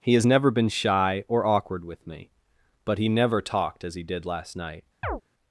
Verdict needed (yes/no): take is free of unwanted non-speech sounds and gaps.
no